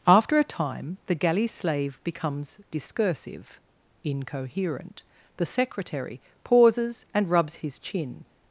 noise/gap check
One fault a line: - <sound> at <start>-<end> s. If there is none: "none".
none